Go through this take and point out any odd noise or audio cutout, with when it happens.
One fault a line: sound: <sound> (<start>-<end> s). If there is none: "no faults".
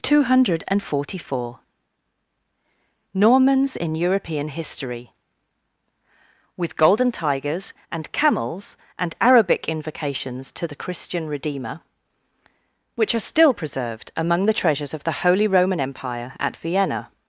no faults